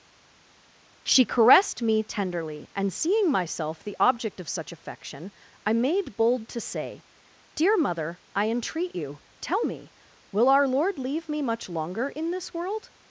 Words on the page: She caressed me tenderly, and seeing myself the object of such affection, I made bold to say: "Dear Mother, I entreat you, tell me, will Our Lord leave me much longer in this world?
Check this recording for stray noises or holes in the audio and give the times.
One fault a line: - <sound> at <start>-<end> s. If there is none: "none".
none